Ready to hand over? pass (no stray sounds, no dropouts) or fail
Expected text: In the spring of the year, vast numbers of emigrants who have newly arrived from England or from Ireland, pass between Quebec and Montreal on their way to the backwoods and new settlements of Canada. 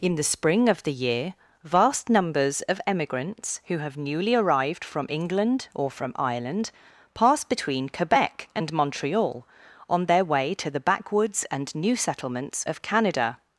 pass